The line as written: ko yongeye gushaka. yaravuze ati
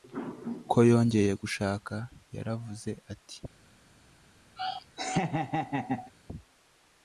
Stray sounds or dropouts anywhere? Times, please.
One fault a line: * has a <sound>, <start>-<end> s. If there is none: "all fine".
* has a laugh, 4.6-6.1 s